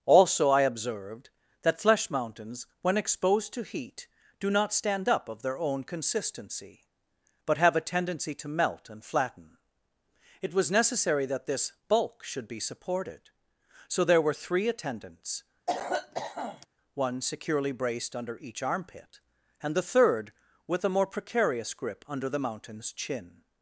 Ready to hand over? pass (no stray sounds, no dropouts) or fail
fail